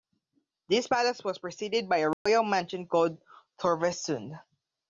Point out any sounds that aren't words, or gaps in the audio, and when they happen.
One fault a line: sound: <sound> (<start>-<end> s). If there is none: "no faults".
sound: dropout (2.1-2.3 s)